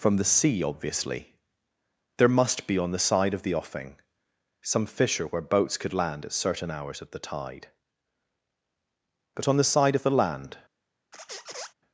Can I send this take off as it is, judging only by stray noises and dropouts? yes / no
no